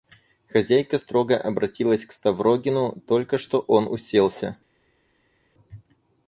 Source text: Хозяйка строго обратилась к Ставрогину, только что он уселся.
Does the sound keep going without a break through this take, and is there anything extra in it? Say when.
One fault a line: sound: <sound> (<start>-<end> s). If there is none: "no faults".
no faults